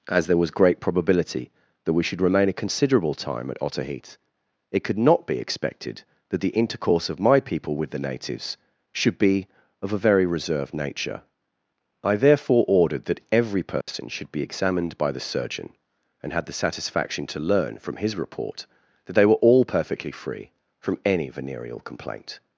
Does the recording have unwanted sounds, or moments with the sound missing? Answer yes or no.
yes